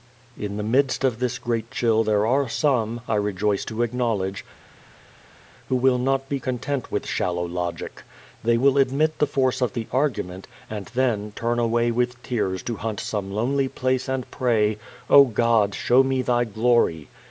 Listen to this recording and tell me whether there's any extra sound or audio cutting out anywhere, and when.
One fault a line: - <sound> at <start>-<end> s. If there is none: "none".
none